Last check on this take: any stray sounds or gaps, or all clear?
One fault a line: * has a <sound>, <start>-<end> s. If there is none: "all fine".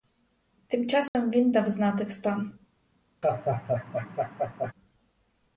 * has a dropout, 1.1-1.1 s
* has a laugh, 3.2-4.7 s